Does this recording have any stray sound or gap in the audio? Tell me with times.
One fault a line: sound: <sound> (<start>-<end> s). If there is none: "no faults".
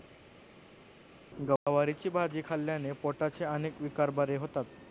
no faults